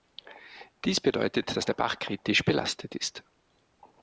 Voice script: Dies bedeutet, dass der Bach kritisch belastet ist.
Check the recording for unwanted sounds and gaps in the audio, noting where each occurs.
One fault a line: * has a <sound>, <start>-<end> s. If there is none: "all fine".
all fine